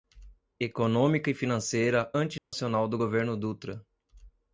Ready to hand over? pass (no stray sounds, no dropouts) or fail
fail